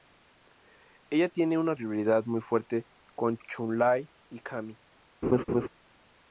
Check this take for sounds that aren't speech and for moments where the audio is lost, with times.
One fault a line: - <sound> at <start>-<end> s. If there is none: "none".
- laugh at 5.2-5.7 s